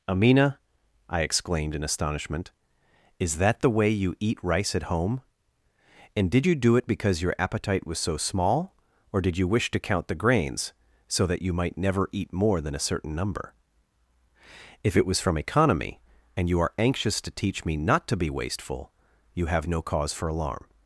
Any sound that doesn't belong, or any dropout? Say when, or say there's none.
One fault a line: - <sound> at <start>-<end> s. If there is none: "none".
none